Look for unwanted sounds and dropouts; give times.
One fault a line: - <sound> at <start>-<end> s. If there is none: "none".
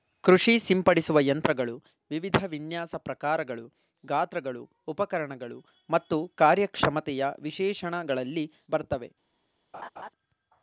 - laugh at 9.7-10.1 s